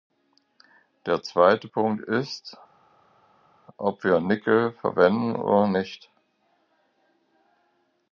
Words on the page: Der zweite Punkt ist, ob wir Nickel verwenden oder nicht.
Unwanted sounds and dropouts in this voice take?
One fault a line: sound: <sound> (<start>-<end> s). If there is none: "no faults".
no faults